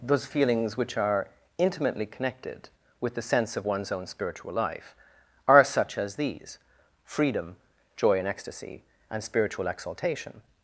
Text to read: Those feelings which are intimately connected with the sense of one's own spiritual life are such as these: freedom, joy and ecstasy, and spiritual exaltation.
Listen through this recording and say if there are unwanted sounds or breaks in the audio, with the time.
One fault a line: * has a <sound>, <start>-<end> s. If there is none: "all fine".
all fine